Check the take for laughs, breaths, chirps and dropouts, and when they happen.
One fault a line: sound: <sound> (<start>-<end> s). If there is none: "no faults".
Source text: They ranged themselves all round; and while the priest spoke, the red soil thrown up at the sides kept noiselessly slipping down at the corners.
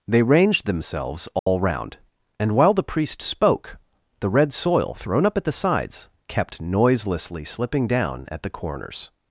sound: dropout (1.4-1.5 s)